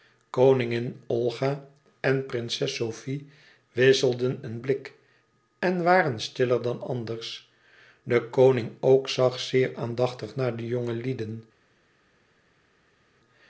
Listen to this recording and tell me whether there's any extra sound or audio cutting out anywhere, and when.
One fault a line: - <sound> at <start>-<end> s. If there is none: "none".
none